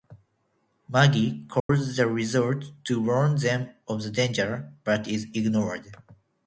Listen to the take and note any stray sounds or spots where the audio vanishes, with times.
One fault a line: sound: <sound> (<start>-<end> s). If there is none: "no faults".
sound: dropout (1.6-1.7 s)